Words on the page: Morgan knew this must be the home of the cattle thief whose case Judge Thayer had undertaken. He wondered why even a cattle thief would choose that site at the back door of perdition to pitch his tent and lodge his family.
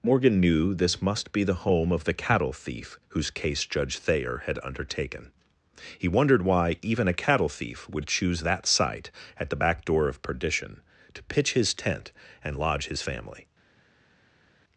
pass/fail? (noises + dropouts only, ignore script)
pass